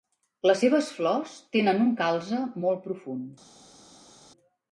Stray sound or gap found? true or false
false